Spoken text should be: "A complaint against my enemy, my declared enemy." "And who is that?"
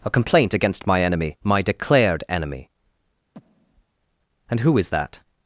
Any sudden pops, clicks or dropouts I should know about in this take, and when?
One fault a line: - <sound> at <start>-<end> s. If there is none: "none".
- breath at 3.3-3.9 s